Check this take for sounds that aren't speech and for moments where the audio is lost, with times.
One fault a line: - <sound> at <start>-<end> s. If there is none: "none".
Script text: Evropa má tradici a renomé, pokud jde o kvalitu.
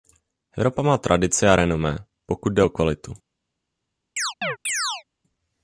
- chirp at 4.2-5.0 s